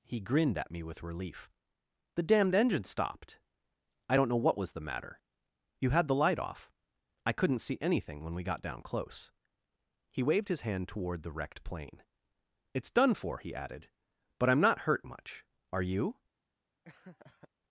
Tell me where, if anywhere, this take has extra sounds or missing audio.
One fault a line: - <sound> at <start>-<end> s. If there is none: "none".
- laugh at 16.8-17.5 s